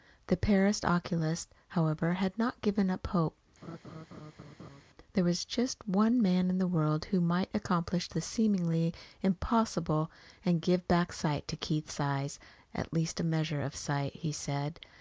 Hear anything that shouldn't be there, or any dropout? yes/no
yes